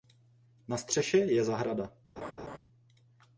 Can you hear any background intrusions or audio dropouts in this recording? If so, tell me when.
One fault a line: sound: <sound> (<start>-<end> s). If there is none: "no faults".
sound: laugh (2.2-2.6 s)